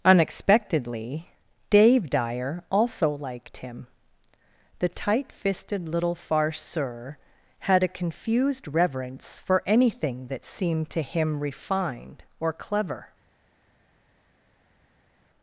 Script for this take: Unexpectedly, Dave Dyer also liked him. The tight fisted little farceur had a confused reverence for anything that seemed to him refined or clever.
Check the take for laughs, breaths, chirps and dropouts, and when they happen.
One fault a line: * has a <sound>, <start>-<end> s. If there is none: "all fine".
all fine